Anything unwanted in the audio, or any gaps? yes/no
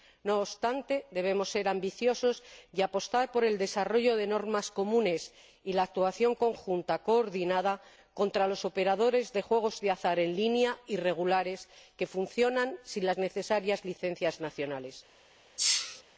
yes